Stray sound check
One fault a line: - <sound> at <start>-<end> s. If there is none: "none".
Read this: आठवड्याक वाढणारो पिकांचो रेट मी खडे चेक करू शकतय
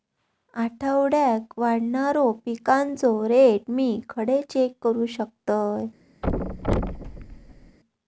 - thud at 6.2-7.8 s